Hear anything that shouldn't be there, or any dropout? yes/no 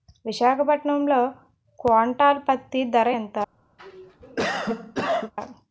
yes